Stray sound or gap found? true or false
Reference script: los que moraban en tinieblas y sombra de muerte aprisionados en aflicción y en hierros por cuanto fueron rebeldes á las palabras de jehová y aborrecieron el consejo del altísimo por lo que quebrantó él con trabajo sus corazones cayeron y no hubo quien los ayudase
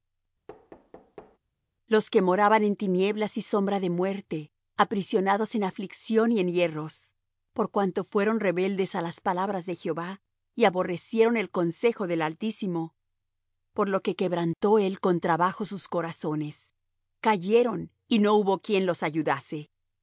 true